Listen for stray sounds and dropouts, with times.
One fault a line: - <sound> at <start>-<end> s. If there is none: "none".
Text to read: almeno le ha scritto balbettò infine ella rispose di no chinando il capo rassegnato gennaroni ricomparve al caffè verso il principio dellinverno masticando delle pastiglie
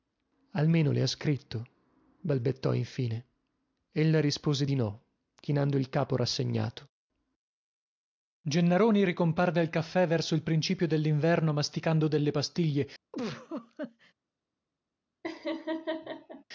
- laugh at 13.1-14.1 s
- laugh at 15.2-16.4 s